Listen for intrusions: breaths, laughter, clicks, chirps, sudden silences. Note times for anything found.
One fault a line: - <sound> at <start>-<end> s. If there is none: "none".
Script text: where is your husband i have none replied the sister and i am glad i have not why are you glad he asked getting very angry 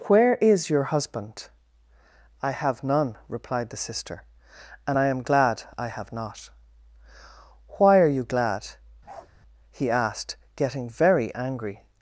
- bark at 9.1-9.3 s